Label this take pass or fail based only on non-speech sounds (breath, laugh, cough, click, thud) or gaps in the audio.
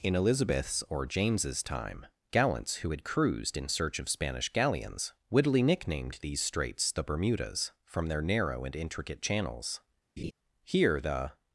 fail